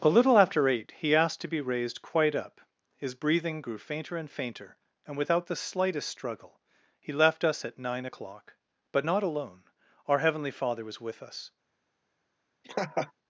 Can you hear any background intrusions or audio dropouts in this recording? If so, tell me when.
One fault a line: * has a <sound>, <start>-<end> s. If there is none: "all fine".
* has a laugh, 12.6-13.1 s